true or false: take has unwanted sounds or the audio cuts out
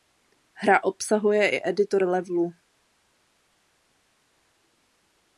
false